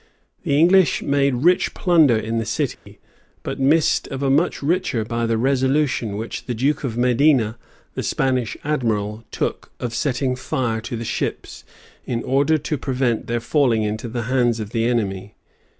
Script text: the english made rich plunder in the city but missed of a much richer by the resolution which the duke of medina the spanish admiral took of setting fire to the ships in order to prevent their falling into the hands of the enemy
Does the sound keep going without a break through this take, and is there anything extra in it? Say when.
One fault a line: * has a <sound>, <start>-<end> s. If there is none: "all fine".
* has a dropout, 2.7-2.9 s